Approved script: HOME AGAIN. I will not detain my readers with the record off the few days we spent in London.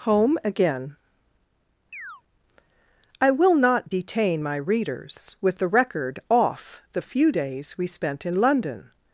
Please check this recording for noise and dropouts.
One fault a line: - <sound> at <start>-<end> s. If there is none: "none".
- chirp at 1.9-2.2 s